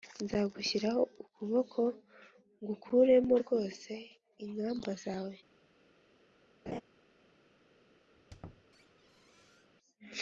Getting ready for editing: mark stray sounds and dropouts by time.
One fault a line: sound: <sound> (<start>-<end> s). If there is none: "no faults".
sound: laugh (6.7-6.8 s)
sound: squeak (8.1-9.7 s)